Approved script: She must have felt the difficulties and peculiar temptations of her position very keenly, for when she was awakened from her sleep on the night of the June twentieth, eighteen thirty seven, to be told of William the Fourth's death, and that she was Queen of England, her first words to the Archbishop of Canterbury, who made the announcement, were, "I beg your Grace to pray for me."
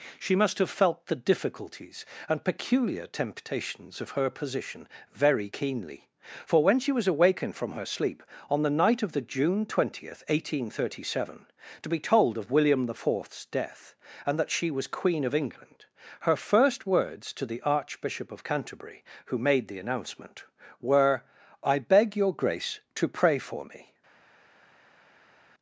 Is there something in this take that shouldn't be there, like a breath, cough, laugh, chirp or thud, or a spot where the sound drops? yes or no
no